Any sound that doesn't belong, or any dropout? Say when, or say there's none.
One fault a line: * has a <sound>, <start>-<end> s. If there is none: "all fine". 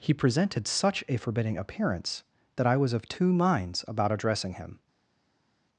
all fine